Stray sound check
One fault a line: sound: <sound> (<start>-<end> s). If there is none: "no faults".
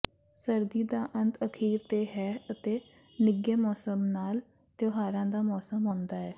no faults